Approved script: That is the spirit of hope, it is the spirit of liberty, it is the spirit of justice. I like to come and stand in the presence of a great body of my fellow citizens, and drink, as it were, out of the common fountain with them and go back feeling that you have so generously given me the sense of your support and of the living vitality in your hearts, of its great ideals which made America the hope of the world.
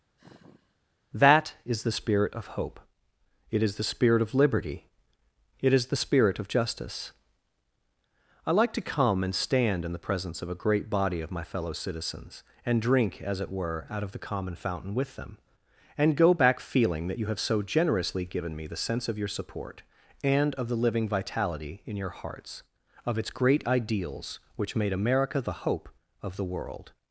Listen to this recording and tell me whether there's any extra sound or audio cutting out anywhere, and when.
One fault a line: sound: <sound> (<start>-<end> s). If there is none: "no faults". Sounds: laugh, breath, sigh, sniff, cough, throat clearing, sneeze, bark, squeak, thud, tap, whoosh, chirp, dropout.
sound: sigh (0.2-0.8 s)